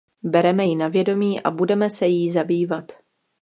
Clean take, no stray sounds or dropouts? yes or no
yes